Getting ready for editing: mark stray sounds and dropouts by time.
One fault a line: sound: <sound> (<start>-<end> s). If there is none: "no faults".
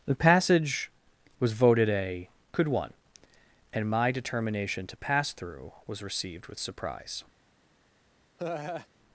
sound: laugh (8.4-8.9 s)